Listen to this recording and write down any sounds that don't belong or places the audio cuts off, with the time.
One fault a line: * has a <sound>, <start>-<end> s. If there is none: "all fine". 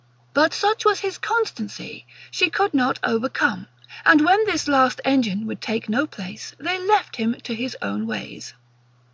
all fine